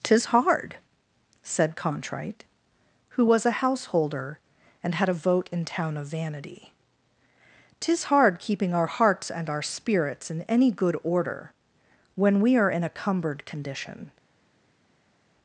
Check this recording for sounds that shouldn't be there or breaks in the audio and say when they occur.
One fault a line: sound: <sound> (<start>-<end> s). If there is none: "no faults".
no faults